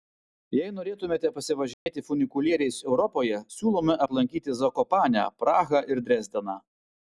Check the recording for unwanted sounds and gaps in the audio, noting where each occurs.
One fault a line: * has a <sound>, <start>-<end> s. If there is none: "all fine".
* has a dropout, 1.7-1.9 s